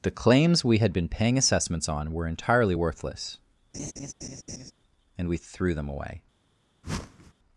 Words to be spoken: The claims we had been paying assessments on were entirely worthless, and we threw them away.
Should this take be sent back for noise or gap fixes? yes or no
yes